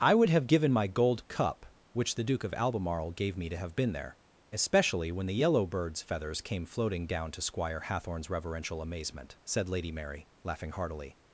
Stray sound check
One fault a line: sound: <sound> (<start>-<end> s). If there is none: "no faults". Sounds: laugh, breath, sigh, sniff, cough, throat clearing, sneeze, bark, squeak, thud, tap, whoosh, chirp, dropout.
no faults